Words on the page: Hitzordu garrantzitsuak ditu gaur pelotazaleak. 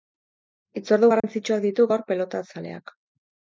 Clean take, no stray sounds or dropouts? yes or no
no